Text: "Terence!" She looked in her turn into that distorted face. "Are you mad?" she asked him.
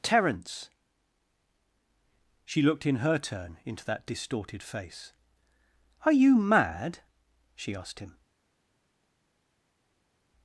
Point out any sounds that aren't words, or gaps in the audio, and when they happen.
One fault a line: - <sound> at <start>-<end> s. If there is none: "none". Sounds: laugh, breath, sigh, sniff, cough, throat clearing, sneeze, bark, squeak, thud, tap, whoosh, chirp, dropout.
none